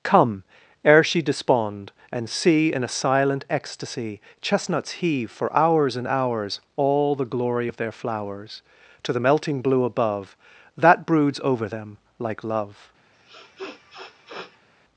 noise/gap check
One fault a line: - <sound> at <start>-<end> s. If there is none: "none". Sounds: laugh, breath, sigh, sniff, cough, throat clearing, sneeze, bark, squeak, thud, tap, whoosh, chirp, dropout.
- sniff at 13.1-14.7 s